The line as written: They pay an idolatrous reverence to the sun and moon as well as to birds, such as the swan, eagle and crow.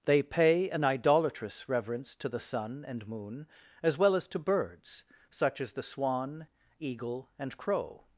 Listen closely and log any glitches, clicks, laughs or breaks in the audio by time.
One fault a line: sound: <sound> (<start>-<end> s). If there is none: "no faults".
no faults